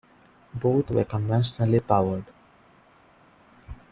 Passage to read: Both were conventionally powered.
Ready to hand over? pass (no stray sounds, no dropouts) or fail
pass